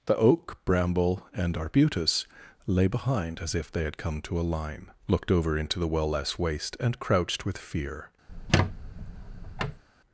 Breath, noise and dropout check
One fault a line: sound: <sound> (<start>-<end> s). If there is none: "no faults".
sound: squeak (8.3-9.8 s)